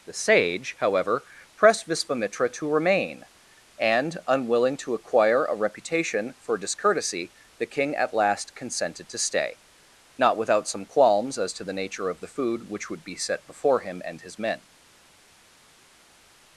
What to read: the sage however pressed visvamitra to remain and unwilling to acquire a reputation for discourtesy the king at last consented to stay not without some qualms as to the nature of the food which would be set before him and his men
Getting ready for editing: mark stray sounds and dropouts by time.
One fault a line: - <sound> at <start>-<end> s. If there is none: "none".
none